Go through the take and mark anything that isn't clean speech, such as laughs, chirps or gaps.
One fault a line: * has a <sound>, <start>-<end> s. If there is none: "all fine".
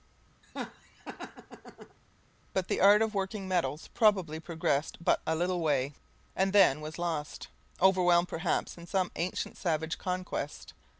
* has a laugh, 0.4-2.0 s